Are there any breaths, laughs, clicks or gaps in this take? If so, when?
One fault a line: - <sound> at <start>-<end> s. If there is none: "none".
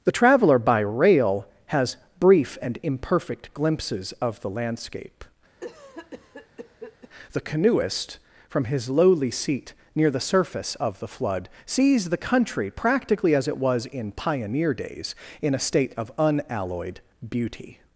- cough at 5.6-7.1 s